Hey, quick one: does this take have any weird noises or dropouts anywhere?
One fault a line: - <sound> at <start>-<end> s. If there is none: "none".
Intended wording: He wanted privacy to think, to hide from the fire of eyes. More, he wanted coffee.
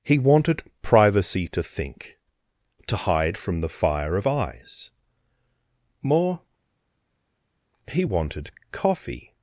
none